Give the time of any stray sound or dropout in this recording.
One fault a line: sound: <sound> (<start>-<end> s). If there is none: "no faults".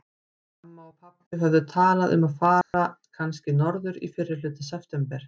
sound: dropout (2.6-2.7 s)